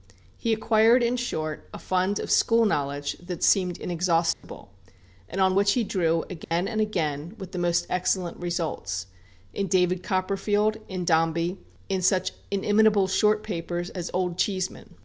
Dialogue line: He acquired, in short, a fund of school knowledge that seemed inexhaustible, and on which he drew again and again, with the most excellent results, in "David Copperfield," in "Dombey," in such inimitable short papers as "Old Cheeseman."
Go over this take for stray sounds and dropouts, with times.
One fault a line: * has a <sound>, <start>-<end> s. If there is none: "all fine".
* has a dropout, 4.3-4.4 s
* has a dropout, 6.4-6.5 s